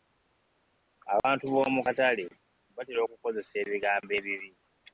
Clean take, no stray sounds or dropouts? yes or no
no